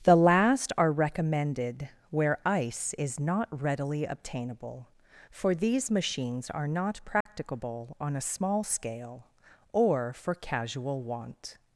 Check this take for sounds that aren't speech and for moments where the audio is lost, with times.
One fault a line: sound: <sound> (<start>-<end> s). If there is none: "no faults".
sound: dropout (7.2-7.3 s)